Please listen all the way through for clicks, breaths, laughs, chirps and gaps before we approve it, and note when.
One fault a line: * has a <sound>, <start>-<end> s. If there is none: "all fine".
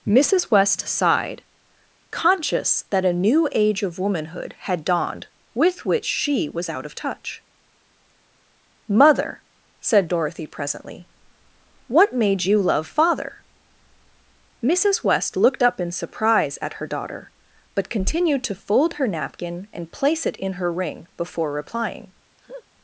* has a laugh, 22.4-22.6 s